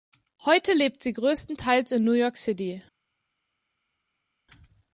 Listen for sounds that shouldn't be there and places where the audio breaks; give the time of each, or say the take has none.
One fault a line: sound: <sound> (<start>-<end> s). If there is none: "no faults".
no faults